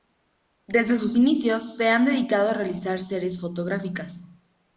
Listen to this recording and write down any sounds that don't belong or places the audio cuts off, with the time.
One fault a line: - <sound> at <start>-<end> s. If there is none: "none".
none